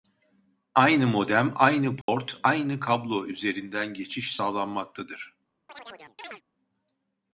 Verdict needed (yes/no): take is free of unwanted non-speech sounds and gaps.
no